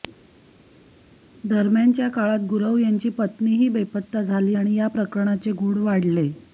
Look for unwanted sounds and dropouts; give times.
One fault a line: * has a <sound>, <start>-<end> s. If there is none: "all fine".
all fine